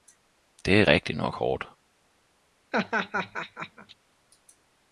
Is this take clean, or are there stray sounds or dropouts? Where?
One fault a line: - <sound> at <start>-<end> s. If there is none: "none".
- laugh at 2.7-3.9 s